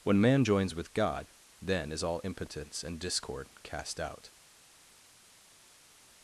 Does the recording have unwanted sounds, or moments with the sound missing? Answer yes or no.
no